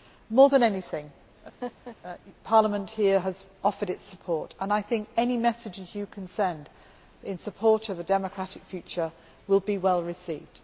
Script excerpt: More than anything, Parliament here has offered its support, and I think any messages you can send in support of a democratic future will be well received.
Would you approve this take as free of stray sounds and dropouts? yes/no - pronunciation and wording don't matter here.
no